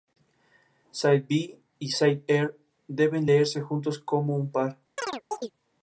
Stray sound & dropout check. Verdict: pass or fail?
fail